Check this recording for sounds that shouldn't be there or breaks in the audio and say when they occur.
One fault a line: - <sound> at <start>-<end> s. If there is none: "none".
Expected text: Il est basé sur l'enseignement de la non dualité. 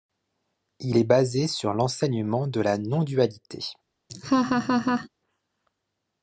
- laugh at 4.1-5.1 s